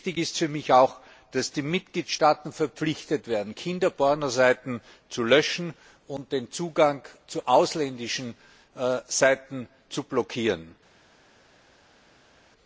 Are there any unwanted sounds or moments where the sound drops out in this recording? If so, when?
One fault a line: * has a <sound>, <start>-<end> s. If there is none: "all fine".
all fine